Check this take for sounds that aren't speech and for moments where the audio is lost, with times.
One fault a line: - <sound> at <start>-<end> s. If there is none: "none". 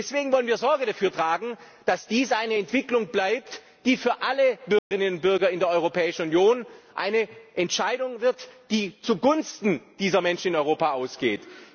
- dropout at 4.8-4.9 s